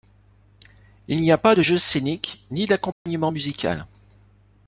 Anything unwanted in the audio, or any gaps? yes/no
yes